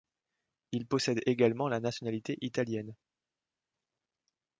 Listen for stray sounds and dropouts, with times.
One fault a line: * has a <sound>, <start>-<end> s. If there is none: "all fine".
all fine